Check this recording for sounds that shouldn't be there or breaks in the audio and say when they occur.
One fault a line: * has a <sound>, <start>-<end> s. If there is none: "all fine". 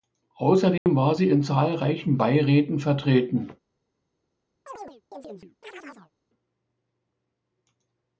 * has a dropout, 0.8-0.9 s
* has a chirp, 4.7-6.1 s